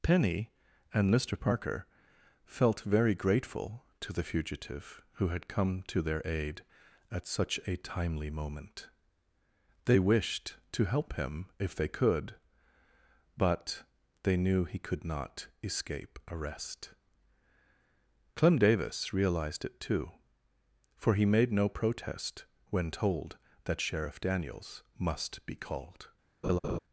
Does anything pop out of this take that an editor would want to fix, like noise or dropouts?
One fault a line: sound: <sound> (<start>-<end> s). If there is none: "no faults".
sound: laugh (26.4-26.8 s)